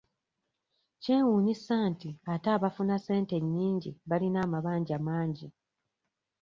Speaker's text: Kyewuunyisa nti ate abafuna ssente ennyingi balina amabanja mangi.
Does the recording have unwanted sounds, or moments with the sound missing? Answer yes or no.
no